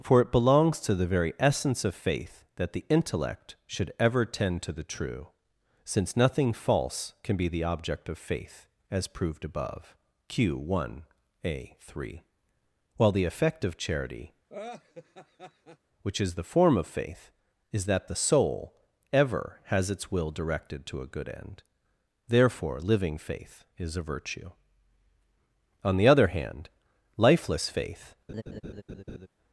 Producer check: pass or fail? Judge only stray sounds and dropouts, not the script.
fail